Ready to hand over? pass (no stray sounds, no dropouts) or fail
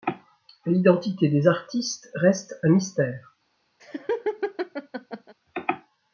fail